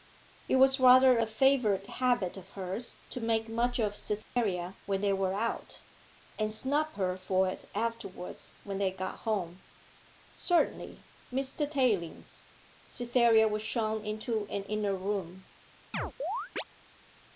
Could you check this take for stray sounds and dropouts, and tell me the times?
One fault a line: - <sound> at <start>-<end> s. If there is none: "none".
- dropout at 4.2-4.4 s
- chirp at 15.9-16.6 s